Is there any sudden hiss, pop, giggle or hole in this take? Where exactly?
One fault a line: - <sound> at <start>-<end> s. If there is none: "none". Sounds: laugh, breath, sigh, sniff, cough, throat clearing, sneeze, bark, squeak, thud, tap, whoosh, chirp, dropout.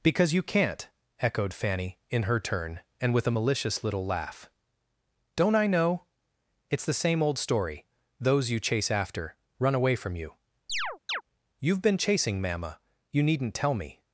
- chirp at 10.7-11.2 s